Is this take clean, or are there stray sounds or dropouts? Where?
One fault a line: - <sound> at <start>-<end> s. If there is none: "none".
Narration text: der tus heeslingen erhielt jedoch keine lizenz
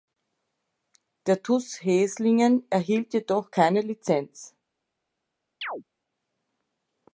- chirp at 5.6-5.8 s